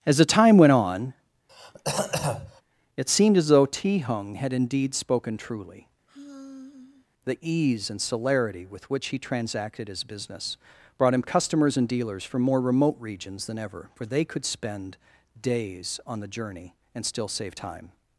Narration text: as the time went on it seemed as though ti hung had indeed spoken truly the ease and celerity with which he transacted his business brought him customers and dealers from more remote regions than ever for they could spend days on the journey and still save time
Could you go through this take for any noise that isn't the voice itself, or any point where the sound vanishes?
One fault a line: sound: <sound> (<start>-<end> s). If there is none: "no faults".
sound: throat clearing (1.5-2.6 s)
sound: sigh (6.1-7.1 s)